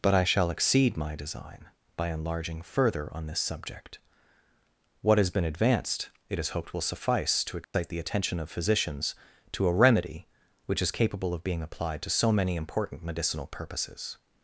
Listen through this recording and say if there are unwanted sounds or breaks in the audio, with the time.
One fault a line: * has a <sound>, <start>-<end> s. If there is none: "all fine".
* has a dropout, 7.6-7.7 s